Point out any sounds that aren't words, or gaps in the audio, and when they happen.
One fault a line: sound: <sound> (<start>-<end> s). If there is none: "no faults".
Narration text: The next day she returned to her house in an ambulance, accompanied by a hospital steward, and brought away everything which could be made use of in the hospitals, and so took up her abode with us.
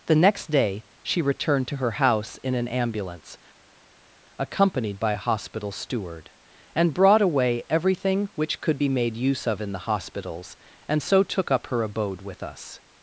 no faults